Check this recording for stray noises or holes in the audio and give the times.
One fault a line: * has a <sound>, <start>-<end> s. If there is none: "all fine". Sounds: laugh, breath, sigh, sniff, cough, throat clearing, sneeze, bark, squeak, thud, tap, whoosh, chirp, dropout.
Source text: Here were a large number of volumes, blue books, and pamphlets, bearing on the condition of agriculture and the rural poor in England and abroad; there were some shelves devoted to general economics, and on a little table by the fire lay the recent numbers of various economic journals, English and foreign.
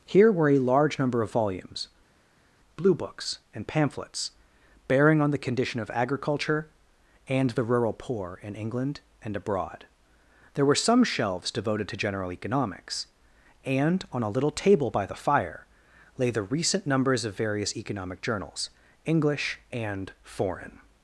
all fine